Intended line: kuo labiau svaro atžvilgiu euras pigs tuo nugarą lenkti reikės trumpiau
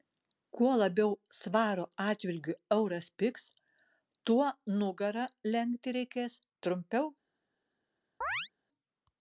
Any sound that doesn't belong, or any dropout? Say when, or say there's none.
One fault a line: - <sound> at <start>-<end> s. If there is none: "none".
- chirp at 8.2-8.5 s